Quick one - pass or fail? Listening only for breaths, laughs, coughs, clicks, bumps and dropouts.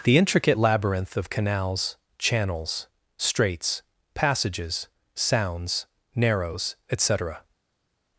pass